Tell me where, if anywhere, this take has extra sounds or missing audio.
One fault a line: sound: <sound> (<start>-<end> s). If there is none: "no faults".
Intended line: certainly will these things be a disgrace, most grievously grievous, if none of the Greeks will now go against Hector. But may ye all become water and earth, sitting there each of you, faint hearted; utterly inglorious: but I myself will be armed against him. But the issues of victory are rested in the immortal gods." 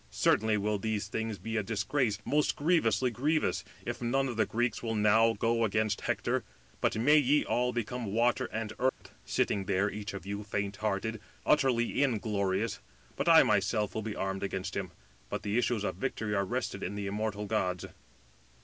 sound: dropout (8.9-9.0 s)